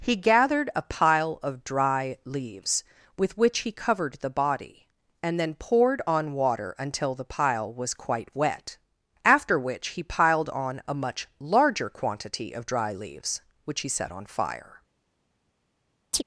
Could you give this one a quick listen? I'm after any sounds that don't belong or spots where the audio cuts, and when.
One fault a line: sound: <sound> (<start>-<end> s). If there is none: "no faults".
sound: chirp (16.1-16.2 s)